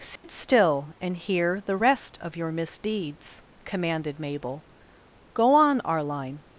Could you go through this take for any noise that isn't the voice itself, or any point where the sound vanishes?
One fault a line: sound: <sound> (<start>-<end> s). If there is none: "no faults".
sound: dropout (0.2-0.2 s)